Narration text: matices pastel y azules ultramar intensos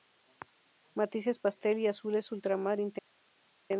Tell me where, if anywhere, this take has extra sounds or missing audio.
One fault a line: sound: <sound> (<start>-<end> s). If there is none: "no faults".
no faults